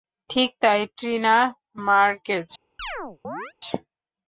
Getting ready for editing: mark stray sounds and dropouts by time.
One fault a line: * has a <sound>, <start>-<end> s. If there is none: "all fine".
* has a chirp, 2.8-3.5 s